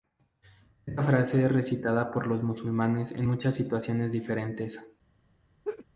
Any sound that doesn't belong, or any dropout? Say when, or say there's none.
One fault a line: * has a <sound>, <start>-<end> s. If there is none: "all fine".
* has a laugh, 5.6-5.9 s